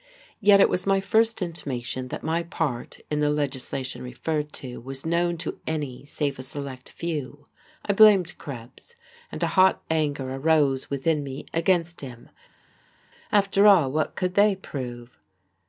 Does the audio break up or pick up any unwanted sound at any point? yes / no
no